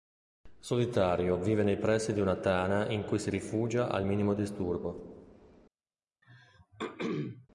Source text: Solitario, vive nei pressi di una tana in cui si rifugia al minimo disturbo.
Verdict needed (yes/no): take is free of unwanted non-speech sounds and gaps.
no